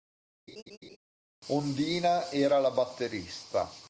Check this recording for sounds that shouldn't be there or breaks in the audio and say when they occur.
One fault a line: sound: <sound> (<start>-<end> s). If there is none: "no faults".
sound: laugh (0.5-1.0 s)